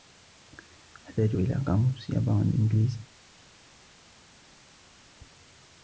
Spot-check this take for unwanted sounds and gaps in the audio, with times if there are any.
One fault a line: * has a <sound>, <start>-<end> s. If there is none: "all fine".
all fine